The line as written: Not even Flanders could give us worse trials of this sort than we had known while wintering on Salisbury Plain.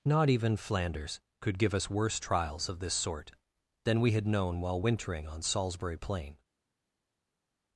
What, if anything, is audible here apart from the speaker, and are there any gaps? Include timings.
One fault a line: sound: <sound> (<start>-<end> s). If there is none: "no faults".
no faults